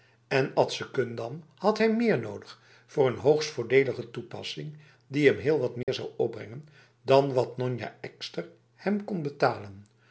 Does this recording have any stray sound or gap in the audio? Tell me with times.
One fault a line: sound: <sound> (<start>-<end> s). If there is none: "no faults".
sound: dropout (5.8-5.9 s)